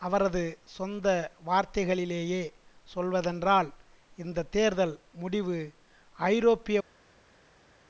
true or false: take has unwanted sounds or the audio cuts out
false